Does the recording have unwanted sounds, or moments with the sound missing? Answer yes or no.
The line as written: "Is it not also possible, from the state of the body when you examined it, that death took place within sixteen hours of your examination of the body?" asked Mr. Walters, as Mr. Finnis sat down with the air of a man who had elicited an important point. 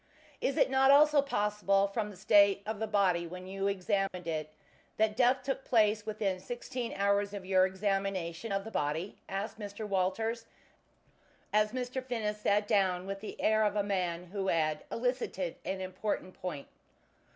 yes